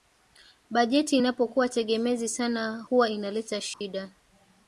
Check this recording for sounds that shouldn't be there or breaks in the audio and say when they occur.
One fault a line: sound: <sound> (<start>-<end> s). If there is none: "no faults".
sound: dropout (3.7-3.8 s)